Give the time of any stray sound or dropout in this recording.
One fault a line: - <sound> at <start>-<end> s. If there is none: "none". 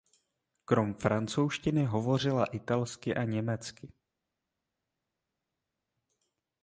none